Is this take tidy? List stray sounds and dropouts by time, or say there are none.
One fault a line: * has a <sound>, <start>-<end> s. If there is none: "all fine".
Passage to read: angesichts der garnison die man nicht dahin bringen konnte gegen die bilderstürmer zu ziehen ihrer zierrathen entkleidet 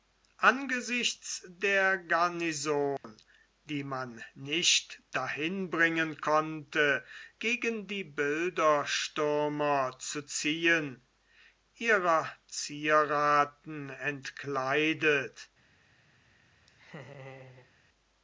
* has a dropout, 3.0-3.0 s
* has a laugh, 16.7-17.7 s